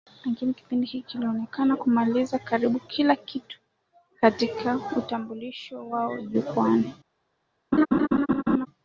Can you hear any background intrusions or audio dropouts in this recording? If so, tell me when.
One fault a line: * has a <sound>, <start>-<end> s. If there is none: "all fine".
* has a laugh, 7.7-8.7 s